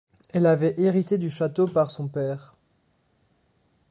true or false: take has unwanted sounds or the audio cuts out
false